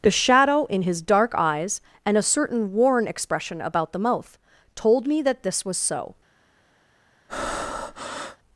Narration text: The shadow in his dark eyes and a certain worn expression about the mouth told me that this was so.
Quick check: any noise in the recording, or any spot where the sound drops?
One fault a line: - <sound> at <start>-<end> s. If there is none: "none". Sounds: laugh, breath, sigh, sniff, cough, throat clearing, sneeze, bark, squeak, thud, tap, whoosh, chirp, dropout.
- breath at 7.3-8.4 s